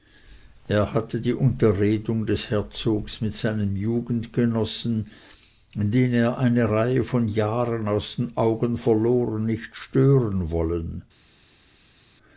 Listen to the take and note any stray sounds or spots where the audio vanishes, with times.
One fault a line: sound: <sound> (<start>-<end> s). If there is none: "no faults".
no faults